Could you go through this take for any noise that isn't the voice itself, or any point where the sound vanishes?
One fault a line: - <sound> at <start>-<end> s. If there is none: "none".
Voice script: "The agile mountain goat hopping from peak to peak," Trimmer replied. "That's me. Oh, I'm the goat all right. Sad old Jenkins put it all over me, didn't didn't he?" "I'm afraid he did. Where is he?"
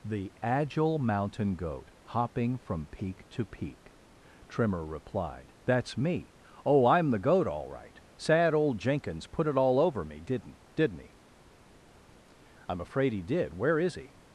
none